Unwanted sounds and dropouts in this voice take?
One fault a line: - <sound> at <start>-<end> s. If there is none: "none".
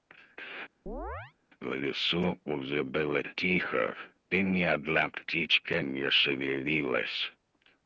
- chirp at 0.9-1.3 s